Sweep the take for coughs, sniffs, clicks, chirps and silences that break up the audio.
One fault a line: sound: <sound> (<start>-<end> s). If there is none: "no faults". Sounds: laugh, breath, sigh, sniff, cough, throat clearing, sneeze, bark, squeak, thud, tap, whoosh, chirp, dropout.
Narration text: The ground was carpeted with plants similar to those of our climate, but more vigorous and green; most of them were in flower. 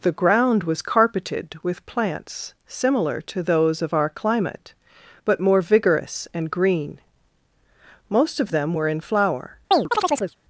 sound: chirp (9.7-10.4 s)